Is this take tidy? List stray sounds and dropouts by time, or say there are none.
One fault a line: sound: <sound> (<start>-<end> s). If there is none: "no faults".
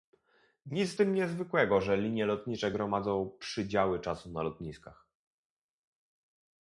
no faults